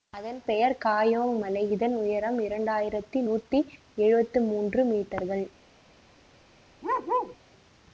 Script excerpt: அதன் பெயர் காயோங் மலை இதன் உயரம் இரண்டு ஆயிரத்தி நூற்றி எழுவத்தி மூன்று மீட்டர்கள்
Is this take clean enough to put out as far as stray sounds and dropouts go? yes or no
no